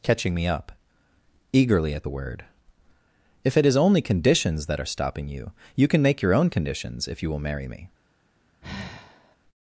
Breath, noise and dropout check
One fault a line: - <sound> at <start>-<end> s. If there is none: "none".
- sigh at 8.6-9.4 s